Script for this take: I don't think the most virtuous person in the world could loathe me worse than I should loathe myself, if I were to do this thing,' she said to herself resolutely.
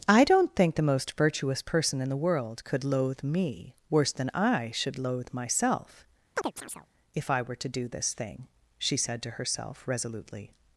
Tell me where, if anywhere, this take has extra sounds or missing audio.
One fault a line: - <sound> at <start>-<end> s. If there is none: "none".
- chirp at 6.3-6.9 s